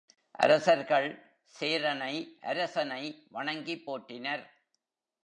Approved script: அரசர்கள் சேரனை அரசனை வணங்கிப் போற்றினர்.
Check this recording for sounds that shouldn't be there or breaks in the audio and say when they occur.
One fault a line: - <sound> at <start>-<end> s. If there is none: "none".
none